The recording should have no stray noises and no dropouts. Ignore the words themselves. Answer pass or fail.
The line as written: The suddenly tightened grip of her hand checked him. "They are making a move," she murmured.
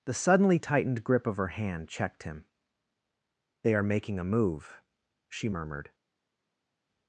pass